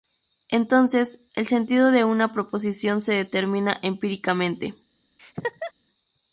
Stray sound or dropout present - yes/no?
yes